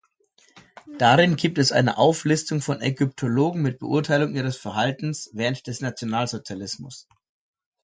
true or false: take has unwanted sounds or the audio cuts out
false